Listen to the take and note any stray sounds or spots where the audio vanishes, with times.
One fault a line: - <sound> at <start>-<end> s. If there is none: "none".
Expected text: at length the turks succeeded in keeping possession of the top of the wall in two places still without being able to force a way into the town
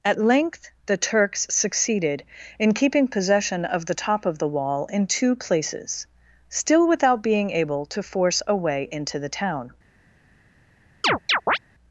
- chirp at 11.0-11.6 s